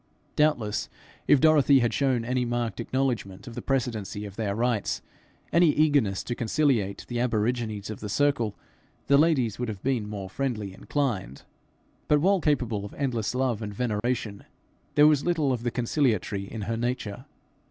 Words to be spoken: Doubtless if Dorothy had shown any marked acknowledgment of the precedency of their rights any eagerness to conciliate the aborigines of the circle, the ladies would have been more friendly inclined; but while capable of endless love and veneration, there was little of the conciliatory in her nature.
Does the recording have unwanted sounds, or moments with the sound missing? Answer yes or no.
yes